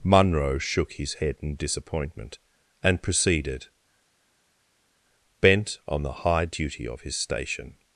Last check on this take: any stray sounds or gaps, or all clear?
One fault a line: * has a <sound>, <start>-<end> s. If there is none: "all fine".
all fine